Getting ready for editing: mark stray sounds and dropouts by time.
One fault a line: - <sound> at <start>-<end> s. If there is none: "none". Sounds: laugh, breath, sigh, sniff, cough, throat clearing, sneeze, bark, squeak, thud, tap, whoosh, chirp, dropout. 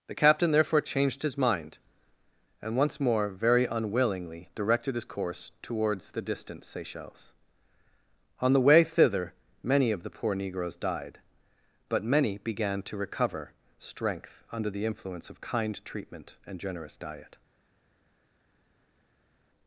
none